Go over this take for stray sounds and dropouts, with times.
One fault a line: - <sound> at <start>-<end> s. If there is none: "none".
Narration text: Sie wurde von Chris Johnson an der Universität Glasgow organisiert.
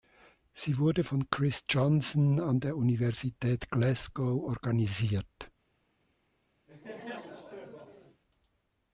- laugh at 6.7-8.2 s